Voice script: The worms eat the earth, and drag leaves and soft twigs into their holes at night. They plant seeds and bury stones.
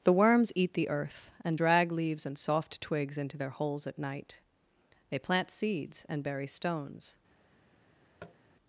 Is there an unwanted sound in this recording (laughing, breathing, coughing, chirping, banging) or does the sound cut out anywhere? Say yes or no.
yes